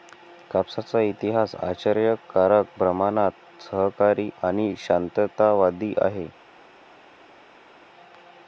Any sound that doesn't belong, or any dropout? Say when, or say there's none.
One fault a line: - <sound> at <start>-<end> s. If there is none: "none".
none